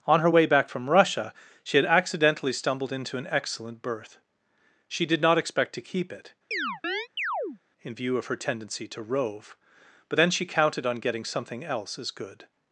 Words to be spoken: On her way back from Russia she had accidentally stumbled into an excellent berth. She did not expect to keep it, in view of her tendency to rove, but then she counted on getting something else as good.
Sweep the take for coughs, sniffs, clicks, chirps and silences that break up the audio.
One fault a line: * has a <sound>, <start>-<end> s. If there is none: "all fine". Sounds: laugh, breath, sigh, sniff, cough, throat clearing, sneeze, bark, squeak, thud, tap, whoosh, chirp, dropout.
* has a chirp, 6.5-7.6 s